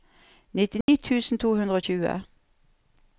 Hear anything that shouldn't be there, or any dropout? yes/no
yes